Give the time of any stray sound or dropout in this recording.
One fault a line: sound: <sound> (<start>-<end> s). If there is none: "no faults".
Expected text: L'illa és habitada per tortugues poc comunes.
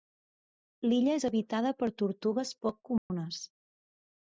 sound: dropout (3.0-3.1 s)